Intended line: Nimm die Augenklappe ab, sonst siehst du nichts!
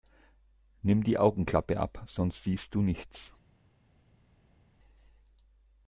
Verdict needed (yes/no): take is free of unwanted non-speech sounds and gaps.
yes